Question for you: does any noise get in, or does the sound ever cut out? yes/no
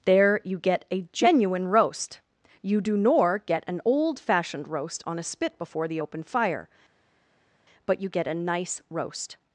no